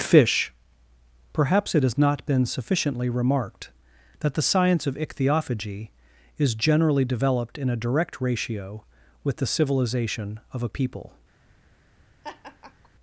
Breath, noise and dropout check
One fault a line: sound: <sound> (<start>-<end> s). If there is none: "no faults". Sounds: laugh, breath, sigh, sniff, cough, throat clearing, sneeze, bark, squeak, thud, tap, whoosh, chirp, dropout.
sound: laugh (12.2-12.9 s)